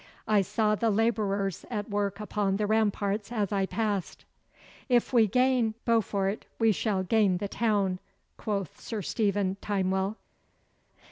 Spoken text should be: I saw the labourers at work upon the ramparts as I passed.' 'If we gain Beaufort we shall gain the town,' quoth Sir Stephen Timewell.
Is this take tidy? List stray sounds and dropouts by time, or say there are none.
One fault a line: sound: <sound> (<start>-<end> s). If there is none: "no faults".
no faults